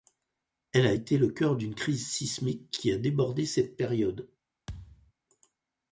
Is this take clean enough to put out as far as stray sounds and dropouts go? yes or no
no